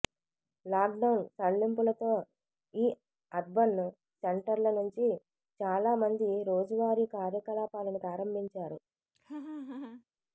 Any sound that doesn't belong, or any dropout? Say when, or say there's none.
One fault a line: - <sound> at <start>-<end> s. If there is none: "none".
- laugh at 9.1-10.0 s